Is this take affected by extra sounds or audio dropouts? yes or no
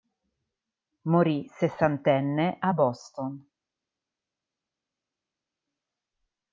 no